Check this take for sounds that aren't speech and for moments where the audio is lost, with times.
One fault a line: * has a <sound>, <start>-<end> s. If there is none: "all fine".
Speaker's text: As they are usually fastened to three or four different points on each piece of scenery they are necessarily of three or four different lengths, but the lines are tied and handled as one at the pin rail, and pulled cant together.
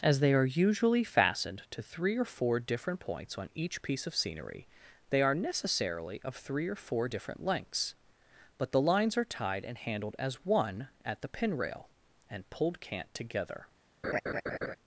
* has a laugh, 14.0-14.8 s